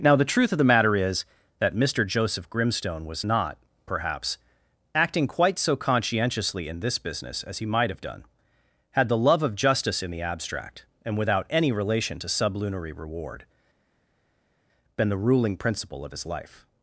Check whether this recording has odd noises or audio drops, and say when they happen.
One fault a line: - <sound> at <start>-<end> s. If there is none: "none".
none